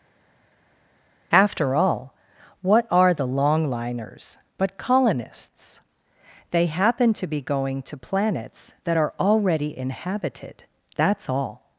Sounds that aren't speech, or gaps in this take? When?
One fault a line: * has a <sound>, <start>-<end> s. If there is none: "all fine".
all fine